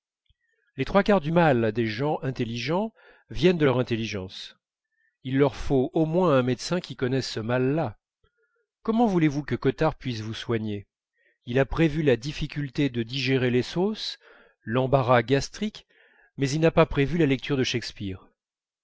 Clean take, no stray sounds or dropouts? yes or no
yes